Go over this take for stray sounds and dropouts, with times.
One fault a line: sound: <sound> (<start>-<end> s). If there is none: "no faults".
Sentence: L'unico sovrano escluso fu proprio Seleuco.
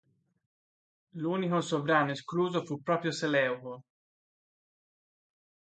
no faults